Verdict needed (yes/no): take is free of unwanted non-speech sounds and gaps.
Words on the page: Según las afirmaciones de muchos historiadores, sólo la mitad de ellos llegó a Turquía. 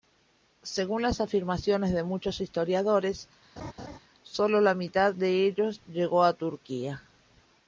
no